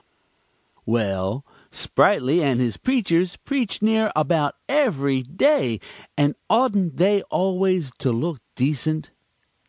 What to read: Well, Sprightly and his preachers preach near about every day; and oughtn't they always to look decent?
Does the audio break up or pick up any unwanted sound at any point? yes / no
no